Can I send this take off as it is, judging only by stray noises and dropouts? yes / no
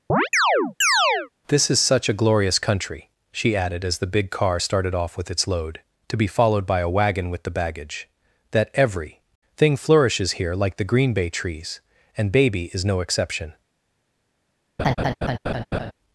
no